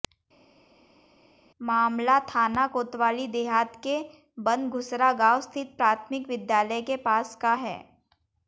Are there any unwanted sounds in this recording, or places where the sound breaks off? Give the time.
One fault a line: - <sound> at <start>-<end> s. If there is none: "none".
none